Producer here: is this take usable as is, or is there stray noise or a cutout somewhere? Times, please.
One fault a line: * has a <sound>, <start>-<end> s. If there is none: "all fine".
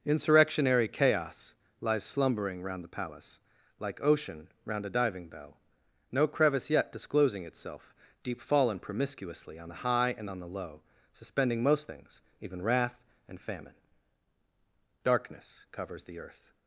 all fine